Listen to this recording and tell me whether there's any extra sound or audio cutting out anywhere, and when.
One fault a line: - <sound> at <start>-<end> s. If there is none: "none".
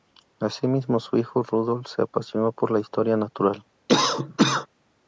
- cough at 3.9-4.7 s